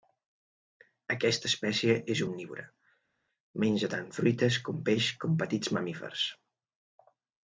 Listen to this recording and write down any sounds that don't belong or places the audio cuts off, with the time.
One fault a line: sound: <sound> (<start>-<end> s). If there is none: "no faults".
no faults